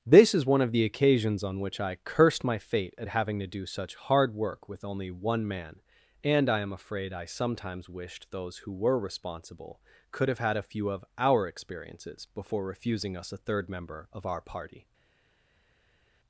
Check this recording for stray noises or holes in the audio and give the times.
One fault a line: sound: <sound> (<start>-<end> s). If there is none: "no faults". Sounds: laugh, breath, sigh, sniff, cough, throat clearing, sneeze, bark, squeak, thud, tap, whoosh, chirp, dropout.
no faults